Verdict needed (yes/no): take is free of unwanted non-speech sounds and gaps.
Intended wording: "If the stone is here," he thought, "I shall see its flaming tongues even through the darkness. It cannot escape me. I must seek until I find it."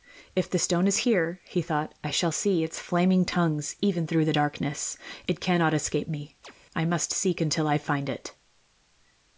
no